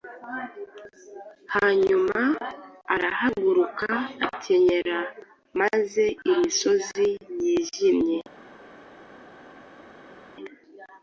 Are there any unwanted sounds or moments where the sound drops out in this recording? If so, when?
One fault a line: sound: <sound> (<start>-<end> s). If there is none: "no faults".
no faults